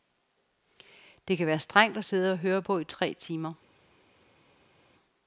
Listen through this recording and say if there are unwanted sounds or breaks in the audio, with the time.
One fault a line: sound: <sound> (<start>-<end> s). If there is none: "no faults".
no faults